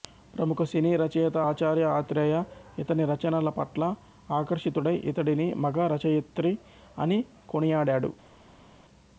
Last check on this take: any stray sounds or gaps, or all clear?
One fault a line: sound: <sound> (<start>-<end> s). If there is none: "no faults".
no faults